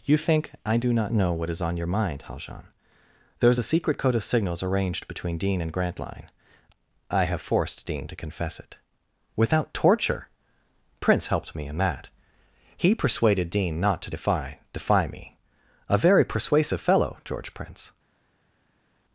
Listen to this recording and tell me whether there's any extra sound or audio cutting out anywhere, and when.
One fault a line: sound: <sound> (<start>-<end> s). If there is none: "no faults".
no faults